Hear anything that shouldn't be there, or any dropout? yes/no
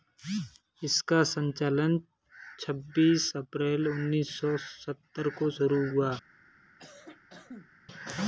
yes